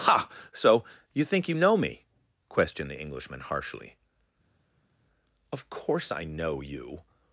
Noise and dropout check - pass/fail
pass